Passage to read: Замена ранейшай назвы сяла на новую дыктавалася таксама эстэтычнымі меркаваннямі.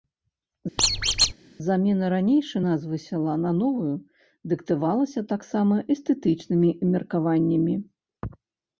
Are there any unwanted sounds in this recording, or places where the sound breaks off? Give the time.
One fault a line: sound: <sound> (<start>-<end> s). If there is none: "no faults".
sound: squeak (0.8-1.3 s)